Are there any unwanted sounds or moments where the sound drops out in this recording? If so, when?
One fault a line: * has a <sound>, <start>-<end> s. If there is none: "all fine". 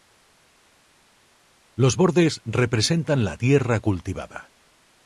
all fine